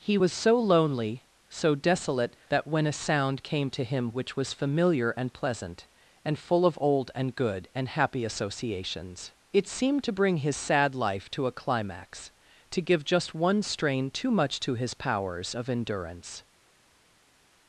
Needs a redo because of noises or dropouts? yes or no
no